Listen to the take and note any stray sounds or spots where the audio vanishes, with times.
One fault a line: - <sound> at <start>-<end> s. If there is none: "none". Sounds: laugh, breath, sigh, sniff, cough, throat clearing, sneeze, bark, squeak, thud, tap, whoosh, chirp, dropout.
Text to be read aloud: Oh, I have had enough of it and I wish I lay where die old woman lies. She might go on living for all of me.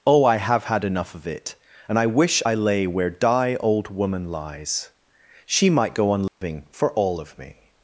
- dropout at 6.3-6.4 s